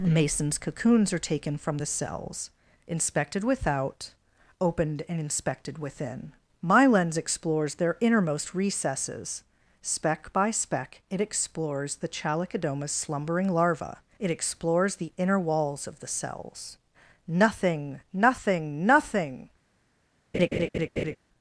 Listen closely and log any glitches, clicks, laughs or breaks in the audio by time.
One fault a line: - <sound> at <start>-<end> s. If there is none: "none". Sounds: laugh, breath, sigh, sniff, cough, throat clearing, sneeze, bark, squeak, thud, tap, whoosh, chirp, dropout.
- laugh at 20.3-21.2 s